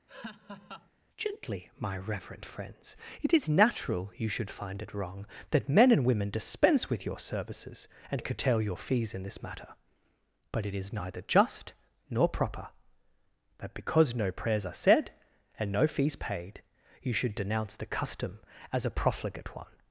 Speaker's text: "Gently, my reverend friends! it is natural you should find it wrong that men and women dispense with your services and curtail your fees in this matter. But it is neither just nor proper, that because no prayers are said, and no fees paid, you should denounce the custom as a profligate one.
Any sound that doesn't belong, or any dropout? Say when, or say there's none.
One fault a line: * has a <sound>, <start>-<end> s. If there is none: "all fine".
* has a laugh, 0.1-0.9 s